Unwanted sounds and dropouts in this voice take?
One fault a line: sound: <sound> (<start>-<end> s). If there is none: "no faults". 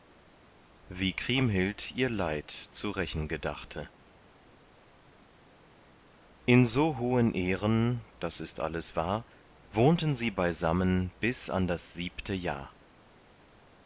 no faults